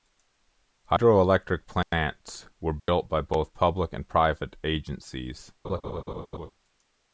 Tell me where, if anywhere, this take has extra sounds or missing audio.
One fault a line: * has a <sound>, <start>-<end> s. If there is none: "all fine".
* has a dropout, 2.8-2.9 s
* has a laugh, 5.6-6.5 s